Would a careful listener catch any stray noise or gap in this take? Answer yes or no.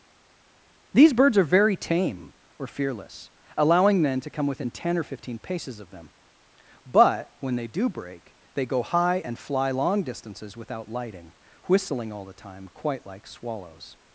no